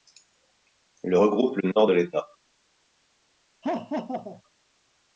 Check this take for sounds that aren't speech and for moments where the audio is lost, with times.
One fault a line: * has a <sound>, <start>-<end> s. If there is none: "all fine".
* has a laugh, 3.6-4.4 s